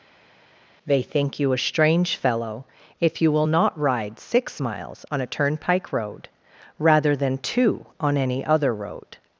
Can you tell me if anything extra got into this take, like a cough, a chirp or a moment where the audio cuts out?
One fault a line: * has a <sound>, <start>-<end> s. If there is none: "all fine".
all fine